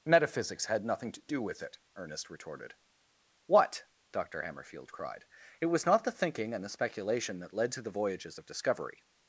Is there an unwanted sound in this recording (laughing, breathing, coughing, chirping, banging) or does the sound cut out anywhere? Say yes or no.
no